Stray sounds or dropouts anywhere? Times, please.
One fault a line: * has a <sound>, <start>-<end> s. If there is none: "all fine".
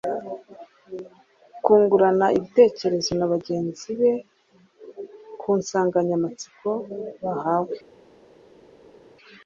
all fine